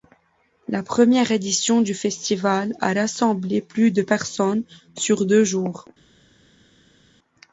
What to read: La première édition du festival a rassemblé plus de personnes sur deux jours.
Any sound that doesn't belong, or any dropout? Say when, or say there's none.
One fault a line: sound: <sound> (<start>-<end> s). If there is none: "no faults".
no faults